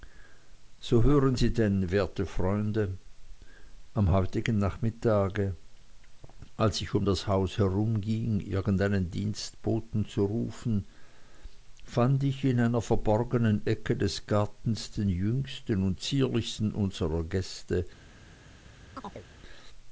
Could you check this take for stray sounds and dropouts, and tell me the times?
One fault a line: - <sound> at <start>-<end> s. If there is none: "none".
- chirp at 19.0-19.3 s